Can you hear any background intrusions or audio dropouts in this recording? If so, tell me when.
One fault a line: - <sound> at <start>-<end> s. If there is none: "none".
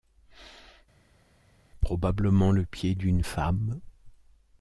none